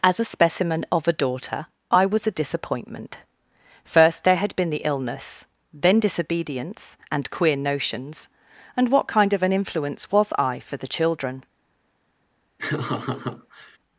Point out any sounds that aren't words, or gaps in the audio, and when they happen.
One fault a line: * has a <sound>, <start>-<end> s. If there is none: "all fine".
* has a laugh, 12.6-13.8 s